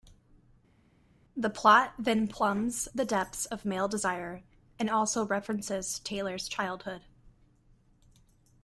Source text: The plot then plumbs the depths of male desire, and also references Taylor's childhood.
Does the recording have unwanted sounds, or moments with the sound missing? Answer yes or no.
no